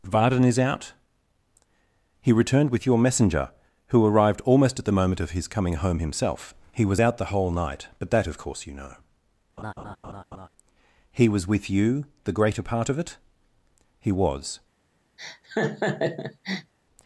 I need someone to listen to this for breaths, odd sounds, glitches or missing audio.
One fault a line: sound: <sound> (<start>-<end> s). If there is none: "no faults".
sound: laugh (9.6-10.5 s)
sound: laugh (15.2-16.7 s)